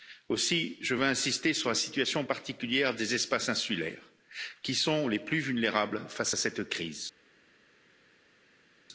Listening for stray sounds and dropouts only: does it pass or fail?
pass